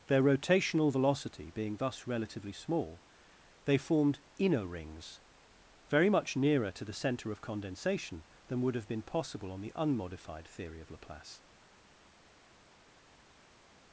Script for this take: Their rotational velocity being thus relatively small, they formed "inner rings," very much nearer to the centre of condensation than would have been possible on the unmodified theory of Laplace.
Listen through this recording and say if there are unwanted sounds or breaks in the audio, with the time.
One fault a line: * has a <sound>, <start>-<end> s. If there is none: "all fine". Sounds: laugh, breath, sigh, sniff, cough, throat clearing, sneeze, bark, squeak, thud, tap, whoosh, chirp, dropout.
all fine